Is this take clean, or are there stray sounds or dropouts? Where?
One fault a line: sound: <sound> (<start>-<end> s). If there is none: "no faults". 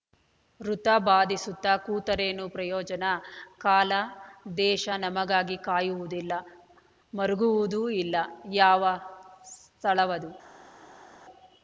no faults